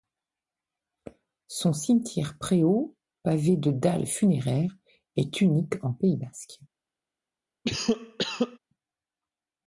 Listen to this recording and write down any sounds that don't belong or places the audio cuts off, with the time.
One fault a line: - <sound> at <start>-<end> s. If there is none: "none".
- cough at 7.6-8.6 s